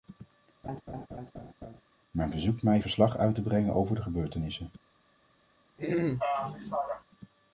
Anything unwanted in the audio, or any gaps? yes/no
yes